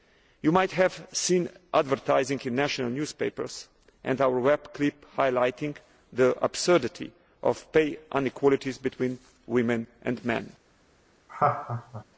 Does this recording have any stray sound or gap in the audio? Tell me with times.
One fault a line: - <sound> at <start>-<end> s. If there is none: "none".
- laugh at 11.3-12.0 s